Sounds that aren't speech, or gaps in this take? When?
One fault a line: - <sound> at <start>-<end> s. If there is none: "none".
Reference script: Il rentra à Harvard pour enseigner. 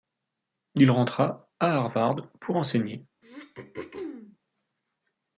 - throat clearing at 3.2-4.4 s